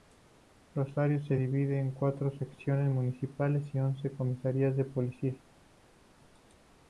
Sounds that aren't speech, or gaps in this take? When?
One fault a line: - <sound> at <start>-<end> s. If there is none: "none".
none